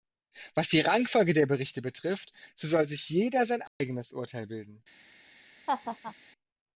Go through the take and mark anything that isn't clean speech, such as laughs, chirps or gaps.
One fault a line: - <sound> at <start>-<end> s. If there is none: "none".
- dropout at 3.7-3.8 s
- laugh at 5.7-6.1 s